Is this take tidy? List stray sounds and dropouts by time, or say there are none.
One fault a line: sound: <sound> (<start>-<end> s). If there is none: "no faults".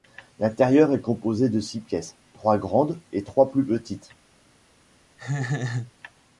sound: laugh (5.2-5.9 s)